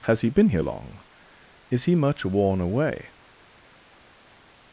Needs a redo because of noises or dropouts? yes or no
no